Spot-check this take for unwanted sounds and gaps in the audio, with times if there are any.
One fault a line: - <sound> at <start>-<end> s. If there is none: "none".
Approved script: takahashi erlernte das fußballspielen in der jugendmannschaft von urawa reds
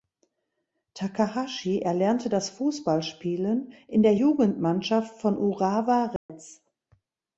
- dropout at 6.2-6.3 s